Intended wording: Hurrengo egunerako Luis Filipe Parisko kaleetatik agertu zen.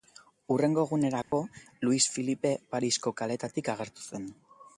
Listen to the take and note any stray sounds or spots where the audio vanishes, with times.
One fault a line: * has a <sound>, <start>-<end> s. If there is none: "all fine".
* has a dropout, 1.2-1.3 s